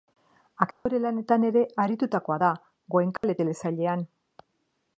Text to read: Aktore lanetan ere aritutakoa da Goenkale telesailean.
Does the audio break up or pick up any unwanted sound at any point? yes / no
yes